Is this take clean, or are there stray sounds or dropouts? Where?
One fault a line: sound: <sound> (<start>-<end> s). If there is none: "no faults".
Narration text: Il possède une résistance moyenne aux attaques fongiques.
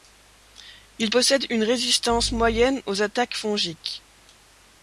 no faults